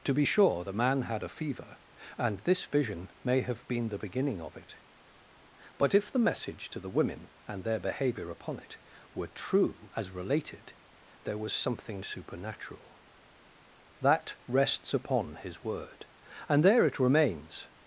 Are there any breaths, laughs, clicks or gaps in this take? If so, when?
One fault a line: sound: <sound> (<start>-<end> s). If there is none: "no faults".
no faults